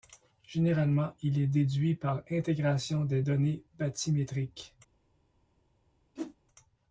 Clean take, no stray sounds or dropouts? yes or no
no